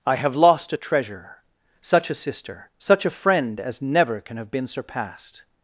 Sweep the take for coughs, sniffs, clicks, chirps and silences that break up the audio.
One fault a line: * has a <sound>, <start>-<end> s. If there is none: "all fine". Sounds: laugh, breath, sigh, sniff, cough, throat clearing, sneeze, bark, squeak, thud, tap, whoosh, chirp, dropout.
all fine